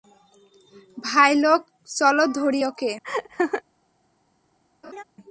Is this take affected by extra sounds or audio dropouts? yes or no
yes